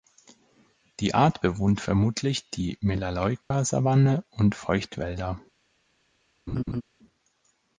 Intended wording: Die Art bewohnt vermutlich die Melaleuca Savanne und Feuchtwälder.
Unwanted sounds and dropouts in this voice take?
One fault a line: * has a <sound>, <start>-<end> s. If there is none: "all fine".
* has a dropout, 3.4-3.5 s
* has a laugh, 6.5-6.8 s